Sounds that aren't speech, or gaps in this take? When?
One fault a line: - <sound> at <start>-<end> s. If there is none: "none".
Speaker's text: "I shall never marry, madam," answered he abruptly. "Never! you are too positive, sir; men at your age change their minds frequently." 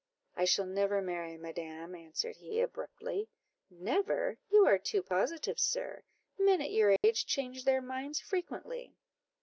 - dropout at 7.0-7.0 s